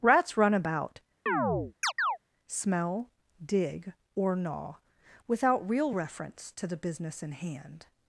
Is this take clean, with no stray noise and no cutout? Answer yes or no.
no